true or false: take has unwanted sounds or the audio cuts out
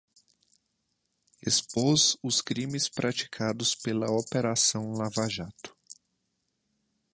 false